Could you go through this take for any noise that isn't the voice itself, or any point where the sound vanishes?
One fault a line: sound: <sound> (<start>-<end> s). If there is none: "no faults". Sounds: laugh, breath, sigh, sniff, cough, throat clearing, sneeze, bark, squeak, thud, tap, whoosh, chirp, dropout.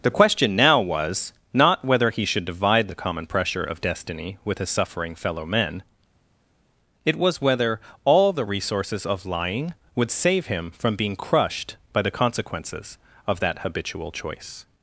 no faults